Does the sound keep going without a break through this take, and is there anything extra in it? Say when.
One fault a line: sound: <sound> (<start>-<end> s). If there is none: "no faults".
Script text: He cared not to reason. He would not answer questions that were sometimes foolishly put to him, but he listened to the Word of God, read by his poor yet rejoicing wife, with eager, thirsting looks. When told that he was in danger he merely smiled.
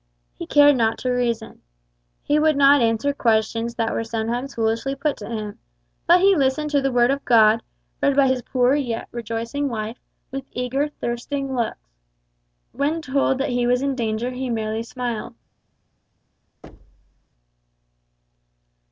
sound: thud (16.6-17.3 s)